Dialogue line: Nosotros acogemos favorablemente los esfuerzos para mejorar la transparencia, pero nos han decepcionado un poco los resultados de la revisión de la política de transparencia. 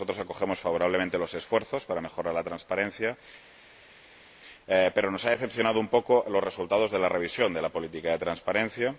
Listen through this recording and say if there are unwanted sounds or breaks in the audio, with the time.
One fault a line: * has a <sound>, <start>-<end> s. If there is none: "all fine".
all fine